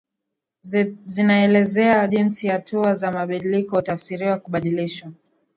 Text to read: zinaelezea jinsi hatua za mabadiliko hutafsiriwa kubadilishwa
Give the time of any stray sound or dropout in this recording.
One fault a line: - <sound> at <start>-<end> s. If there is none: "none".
none